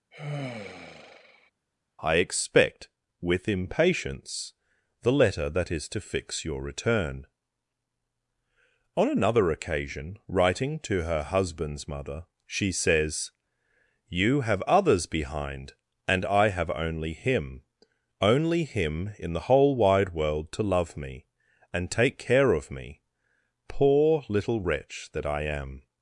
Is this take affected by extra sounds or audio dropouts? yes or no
yes